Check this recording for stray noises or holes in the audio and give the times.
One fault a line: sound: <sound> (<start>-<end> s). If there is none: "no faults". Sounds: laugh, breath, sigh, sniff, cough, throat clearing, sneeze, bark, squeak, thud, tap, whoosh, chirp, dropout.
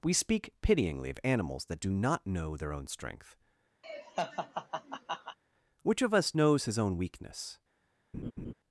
sound: laugh (3.8-5.4 s)
sound: laugh (8.1-8.5 s)